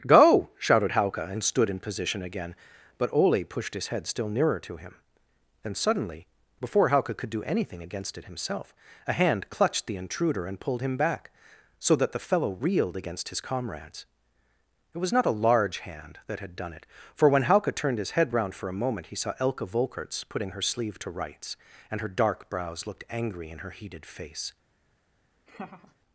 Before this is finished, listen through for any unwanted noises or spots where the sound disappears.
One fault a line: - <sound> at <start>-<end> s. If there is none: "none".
- laugh at 25.5-26.0 s